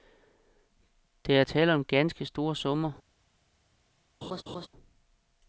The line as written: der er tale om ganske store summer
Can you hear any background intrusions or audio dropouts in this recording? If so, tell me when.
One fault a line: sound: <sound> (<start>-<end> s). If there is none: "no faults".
sound: laugh (4.2-4.7 s)